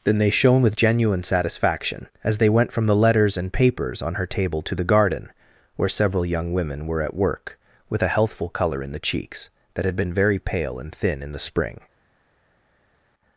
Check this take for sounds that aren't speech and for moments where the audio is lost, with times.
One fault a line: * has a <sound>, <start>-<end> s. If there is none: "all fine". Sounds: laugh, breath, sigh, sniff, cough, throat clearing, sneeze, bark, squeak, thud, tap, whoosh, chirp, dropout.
all fine